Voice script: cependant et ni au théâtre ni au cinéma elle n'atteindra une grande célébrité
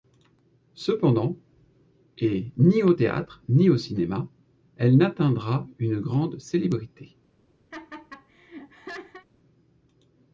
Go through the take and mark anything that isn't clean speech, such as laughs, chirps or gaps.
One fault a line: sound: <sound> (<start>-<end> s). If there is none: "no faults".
sound: laugh (7.7-9.3 s)